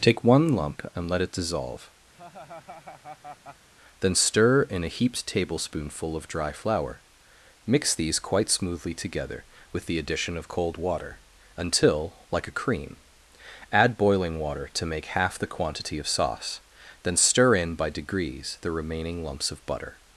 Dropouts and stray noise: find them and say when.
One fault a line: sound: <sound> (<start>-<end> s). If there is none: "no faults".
sound: laugh (2.1-3.7 s)